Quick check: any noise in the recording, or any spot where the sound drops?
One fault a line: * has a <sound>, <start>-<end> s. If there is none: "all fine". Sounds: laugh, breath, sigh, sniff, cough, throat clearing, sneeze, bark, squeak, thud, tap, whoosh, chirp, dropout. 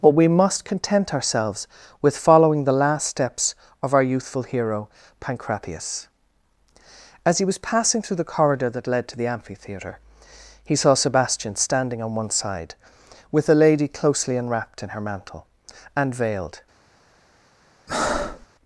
* has a breath, 17.9-18.5 s